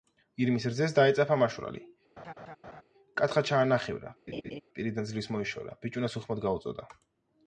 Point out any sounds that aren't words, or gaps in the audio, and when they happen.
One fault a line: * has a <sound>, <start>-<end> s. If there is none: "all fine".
* has a laugh, 2.2-2.8 s
* has a laugh, 4.3-4.6 s